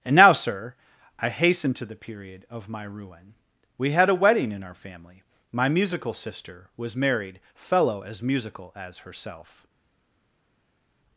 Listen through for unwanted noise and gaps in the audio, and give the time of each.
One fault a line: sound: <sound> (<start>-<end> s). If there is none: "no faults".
no faults